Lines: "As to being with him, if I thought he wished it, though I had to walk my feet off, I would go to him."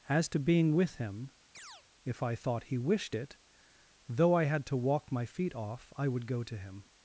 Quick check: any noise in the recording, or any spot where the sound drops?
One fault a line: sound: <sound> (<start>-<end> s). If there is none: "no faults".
sound: chirp (1.5-1.8 s)